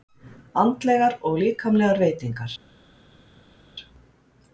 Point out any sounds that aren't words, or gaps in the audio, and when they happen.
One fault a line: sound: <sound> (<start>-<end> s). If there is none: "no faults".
no faults